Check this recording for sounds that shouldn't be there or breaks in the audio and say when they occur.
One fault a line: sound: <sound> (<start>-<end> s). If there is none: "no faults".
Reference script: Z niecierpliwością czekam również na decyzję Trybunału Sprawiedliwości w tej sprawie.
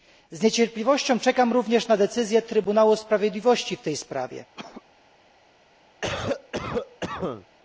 sound: cough (4.5-4.8 s)
sound: cough (6.0-7.5 s)